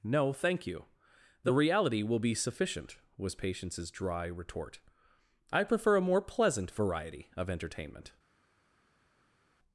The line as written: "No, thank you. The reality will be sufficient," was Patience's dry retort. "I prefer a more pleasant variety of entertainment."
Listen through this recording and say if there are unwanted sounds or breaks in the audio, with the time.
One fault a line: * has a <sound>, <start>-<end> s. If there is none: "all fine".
all fine